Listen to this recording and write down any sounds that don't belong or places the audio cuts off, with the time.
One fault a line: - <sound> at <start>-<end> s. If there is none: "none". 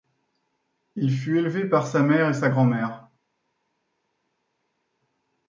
none